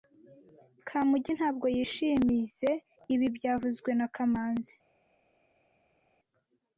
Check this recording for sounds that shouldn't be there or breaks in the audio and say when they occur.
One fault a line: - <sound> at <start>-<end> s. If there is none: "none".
none